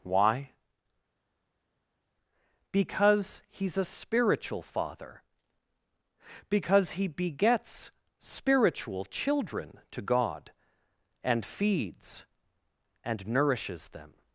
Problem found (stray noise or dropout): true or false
false